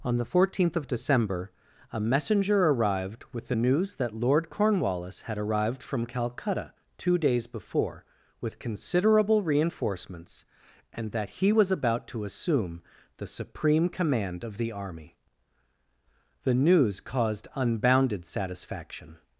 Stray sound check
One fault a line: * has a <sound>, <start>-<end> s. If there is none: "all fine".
all fine